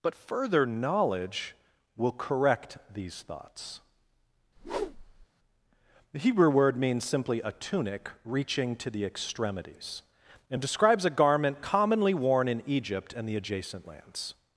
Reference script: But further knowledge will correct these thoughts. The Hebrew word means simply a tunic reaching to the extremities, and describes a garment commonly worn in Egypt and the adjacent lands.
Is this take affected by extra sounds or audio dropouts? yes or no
yes